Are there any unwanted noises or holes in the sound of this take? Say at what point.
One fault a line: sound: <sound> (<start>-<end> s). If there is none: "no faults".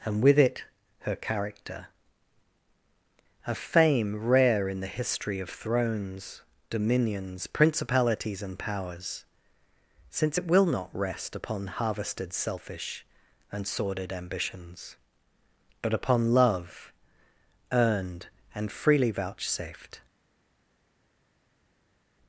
no faults